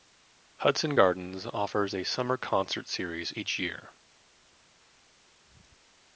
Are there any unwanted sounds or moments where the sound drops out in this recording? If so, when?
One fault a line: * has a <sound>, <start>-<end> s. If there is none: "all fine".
all fine